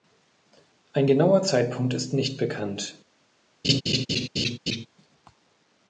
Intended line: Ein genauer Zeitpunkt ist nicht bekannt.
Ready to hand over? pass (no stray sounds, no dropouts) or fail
fail